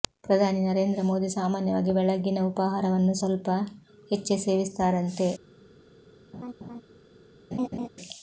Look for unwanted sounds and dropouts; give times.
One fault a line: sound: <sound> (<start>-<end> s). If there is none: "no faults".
sound: laugh (6.3-6.8 s)
sound: laugh (7.5-7.9 s)